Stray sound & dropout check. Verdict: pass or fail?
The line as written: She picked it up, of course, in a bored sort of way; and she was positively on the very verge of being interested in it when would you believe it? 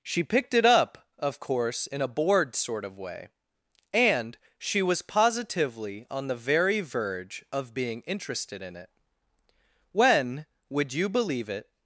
pass